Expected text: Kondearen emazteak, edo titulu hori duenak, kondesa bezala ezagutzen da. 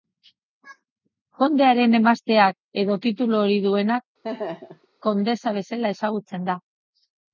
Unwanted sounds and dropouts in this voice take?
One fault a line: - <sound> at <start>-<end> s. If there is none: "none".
- laugh at 4.2-4.9 s